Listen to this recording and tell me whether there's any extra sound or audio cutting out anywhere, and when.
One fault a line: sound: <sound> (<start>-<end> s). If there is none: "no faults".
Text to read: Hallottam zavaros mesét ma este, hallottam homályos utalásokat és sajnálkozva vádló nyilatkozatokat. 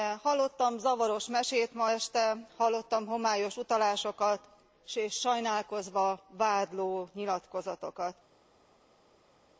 no faults